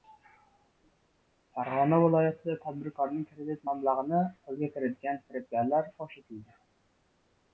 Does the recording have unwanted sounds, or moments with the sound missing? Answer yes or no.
no